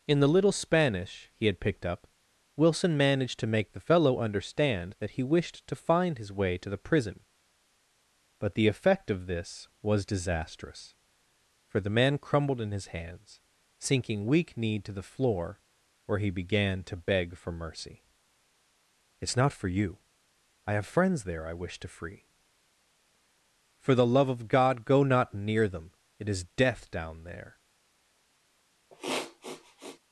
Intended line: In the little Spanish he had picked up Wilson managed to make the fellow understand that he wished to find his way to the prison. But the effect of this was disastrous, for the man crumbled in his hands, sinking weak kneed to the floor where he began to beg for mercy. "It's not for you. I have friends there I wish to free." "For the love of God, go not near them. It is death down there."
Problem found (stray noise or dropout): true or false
true